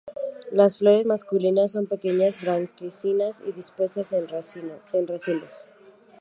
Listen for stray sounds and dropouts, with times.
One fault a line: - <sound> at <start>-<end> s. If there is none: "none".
none